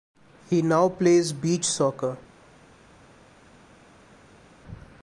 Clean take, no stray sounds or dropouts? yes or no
yes